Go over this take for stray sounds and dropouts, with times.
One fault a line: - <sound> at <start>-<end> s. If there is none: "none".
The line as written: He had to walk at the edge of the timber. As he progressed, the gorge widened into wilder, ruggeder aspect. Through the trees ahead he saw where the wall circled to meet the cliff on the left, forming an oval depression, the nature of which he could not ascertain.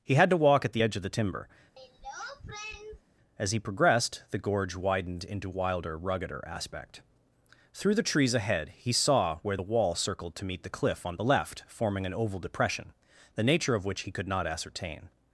- throat clearing at 1.8-3.0 s